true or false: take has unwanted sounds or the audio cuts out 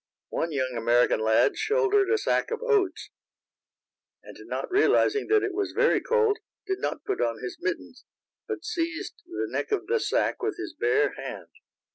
false